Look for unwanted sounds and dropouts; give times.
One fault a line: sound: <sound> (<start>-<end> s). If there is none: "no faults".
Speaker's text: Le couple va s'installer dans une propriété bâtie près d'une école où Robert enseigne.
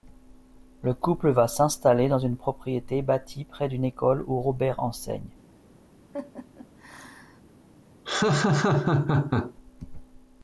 sound: laugh (6.1-7.4 s)
sound: laugh (8.0-9.5 s)